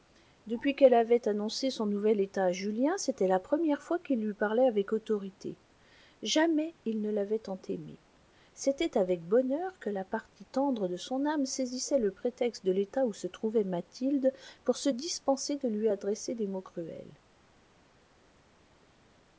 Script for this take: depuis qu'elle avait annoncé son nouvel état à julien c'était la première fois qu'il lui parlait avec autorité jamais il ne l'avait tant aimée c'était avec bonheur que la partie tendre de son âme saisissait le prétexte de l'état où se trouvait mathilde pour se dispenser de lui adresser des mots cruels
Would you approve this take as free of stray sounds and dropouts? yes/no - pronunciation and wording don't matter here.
yes